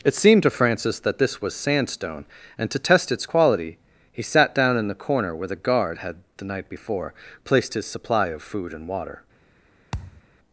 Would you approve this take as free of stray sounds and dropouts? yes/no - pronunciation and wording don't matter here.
no